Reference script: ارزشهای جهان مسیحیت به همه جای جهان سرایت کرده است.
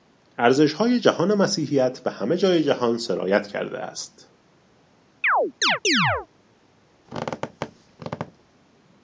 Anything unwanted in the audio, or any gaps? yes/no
yes